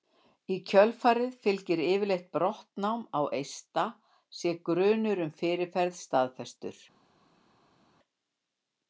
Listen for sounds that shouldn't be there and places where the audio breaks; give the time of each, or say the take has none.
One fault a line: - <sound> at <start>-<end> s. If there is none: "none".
none